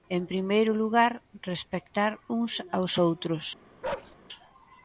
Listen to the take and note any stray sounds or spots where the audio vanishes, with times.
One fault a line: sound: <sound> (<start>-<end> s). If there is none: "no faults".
sound: bark (3.8-4.2 s)